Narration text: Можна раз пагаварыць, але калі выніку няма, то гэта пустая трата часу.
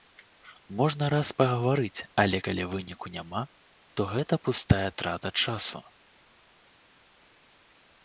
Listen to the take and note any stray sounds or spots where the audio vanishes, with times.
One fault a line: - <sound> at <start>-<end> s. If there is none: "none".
none